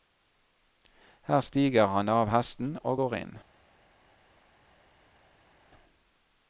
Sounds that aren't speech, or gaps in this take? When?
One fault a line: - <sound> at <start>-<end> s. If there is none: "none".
none